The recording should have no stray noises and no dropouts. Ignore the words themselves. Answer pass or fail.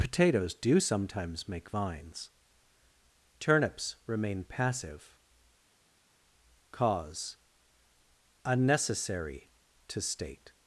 pass